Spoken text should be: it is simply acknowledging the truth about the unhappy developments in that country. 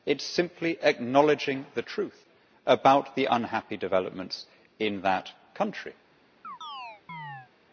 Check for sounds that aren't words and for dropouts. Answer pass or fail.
fail